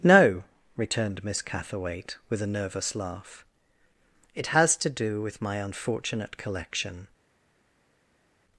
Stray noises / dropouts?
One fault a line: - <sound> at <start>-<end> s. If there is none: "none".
none